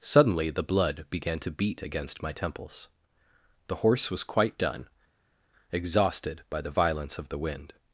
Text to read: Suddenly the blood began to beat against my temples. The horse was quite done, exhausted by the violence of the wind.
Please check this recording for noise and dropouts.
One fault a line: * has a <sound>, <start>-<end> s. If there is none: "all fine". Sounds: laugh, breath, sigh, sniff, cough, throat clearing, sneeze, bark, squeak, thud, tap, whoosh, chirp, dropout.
all fine